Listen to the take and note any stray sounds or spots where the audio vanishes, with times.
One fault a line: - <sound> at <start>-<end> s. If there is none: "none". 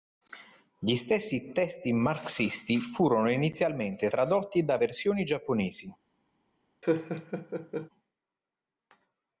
- laugh at 6.8-7.9 s